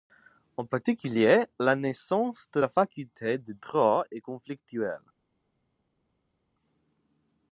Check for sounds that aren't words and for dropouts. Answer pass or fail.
pass